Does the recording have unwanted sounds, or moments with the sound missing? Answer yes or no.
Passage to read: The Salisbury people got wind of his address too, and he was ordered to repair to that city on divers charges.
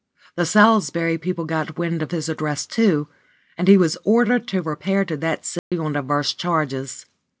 yes